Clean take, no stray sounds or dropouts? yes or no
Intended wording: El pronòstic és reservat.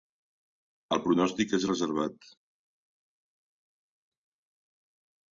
yes